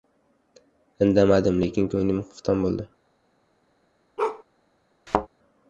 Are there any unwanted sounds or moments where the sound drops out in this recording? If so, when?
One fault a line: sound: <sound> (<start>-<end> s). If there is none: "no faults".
sound: bark (4.2-4.4 s)
sound: thud (5.1-5.3 s)